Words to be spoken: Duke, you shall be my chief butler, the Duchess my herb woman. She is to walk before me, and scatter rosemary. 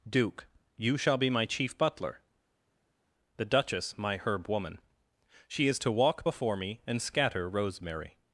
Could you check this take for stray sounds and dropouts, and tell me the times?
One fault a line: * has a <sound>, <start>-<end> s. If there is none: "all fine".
all fine